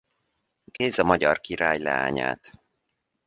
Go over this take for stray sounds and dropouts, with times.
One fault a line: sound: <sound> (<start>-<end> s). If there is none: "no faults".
sound: dropout (0.8-0.8 s)